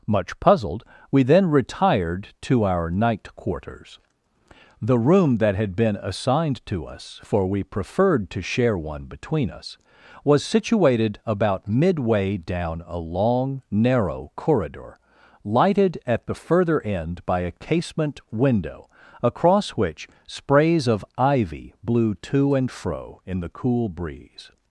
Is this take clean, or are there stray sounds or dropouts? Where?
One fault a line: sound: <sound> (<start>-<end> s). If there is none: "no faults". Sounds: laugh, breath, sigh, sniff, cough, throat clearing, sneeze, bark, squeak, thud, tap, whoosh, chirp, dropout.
no faults